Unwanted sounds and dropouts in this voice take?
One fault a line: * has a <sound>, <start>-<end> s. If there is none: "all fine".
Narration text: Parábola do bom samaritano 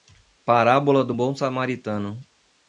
all fine